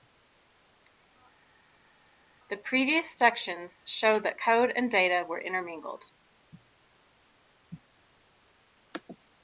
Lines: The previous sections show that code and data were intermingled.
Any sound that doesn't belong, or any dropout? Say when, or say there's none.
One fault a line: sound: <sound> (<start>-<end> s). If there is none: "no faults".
no faults